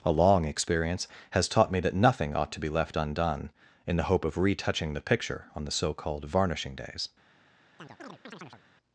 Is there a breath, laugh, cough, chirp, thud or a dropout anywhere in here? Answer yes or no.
yes